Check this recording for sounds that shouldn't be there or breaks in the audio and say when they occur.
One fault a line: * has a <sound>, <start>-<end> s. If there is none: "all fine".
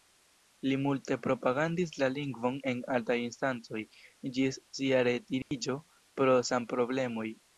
* has a dropout, 5.4-5.5 s